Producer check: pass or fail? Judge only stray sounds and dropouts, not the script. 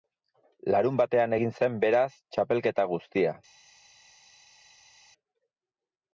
pass